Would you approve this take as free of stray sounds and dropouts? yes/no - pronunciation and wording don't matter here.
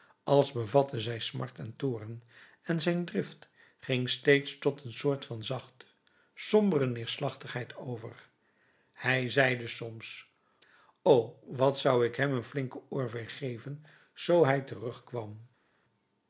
yes